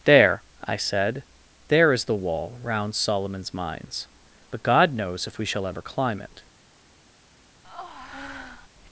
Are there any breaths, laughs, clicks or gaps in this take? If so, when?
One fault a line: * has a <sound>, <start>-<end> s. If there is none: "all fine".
* has a breath, 7.6-8.7 s